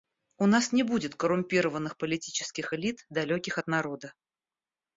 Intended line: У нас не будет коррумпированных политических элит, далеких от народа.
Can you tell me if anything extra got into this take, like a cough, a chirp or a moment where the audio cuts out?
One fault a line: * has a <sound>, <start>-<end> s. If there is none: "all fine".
all fine